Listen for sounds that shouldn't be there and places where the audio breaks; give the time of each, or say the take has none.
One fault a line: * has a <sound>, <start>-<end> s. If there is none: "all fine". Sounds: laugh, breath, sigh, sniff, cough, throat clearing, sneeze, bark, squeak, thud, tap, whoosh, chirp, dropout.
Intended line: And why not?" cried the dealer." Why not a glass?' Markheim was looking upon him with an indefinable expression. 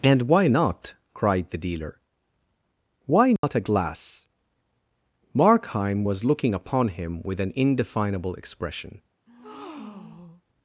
* has a dropout, 3.4-3.4 s
* has a breath, 9.3-10.4 s